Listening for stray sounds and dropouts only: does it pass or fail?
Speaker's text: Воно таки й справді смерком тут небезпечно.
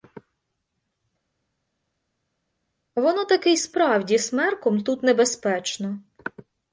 pass